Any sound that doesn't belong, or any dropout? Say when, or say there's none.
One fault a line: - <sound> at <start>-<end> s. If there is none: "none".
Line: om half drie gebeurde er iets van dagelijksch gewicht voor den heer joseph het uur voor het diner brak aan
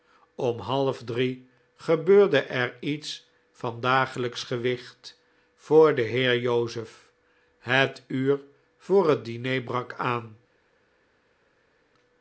none